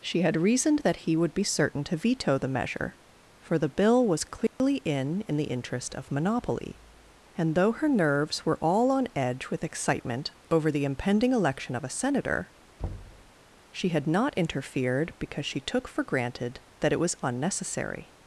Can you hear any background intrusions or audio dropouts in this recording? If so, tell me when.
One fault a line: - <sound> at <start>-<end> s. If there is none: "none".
- dropout at 4.5-4.6 s
- thud at 12.8-13.3 s